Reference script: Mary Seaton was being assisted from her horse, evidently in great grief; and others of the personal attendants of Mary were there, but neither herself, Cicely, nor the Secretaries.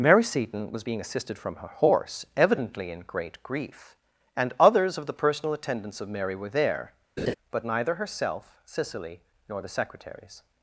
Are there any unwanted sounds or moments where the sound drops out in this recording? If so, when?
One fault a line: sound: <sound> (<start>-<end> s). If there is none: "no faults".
sound: laugh (7.2-7.3 s)